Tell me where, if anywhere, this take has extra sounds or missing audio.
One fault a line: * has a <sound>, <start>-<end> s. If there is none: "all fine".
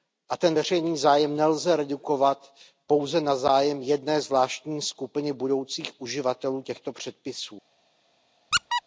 * has a squeak, 8.5-8.8 s